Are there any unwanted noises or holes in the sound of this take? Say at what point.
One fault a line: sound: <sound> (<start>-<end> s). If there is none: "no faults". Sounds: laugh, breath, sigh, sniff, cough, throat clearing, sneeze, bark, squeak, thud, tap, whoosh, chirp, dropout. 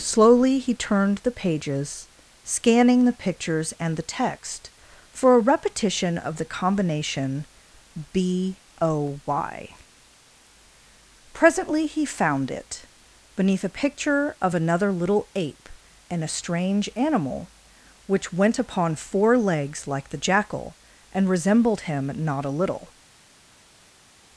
no faults